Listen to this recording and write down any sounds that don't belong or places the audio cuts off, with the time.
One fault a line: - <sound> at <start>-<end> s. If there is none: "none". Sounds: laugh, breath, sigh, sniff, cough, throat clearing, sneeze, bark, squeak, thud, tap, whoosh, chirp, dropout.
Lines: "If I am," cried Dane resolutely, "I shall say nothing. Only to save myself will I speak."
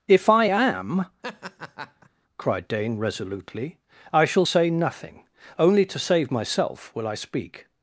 - laugh at 1.2-2.1 s